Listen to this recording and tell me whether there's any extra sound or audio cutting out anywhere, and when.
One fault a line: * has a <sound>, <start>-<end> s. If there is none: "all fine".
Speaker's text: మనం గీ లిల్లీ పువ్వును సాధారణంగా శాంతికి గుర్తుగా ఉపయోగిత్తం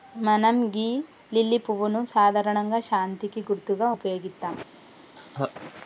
* has a laugh, 5.2-5.5 s